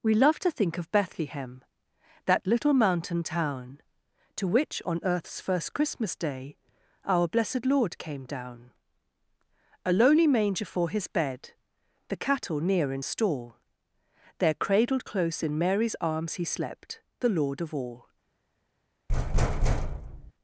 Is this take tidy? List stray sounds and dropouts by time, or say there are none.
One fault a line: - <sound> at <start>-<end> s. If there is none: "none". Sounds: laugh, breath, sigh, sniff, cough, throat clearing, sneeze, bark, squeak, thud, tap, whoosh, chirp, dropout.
- thud at 19.1-20.3 s